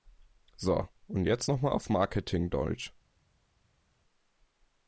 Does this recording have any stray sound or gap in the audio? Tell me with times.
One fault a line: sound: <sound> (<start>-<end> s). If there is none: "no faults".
no faults